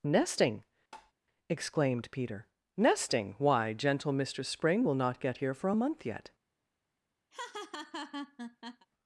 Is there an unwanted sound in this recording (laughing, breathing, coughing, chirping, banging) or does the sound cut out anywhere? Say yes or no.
yes